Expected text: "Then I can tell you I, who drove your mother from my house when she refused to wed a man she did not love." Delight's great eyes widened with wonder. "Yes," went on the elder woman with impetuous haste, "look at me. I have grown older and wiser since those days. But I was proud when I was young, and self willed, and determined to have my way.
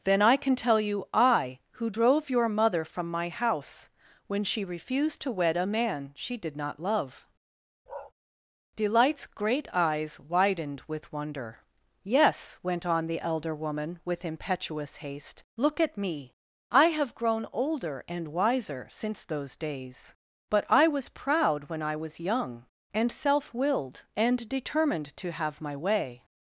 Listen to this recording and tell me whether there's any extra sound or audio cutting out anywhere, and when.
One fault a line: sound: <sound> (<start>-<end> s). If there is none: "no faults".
sound: bark (7.9-8.1 s)